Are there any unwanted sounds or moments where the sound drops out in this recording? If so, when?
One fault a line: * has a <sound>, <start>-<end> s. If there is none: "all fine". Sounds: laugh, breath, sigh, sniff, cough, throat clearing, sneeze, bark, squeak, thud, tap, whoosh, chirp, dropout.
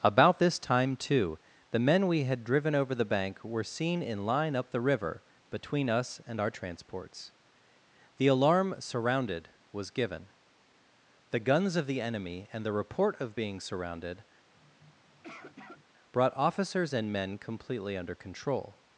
* has a sniff, 14.5-15.8 s